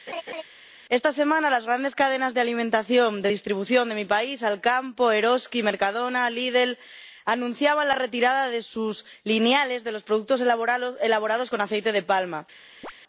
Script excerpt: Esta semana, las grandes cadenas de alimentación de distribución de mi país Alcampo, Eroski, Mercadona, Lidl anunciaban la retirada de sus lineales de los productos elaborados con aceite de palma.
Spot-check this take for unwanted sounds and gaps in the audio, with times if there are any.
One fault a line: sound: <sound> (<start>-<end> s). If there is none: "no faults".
sound: laugh (0.1-0.4 s)
sound: chirp (12.8-12.9 s)